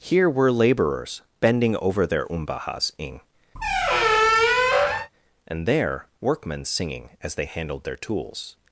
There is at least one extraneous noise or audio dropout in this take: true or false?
true